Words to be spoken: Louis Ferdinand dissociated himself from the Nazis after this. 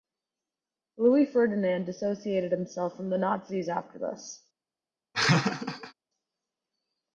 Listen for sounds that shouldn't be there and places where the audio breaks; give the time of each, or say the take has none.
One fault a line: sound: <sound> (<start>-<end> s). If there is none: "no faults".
sound: laugh (5.1-5.9 s)